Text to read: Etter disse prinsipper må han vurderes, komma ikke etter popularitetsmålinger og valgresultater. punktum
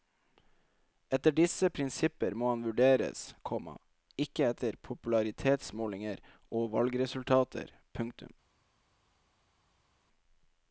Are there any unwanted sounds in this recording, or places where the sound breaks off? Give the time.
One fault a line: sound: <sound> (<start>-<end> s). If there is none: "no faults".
no faults